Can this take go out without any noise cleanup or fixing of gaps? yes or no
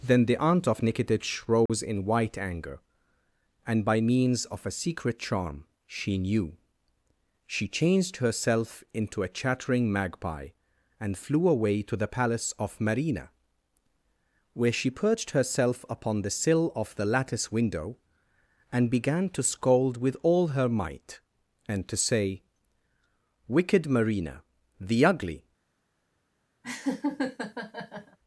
no